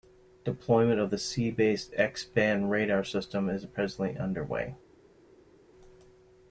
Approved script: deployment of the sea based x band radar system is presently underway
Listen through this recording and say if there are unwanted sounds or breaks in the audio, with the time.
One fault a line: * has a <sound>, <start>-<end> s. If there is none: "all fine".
all fine